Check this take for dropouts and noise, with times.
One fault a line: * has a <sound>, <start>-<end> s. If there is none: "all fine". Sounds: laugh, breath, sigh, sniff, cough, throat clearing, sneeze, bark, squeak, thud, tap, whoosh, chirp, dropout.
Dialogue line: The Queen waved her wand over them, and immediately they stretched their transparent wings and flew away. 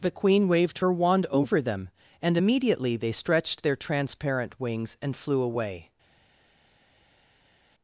all fine